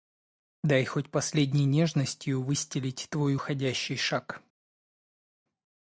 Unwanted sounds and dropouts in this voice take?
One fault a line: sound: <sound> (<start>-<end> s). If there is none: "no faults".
no faults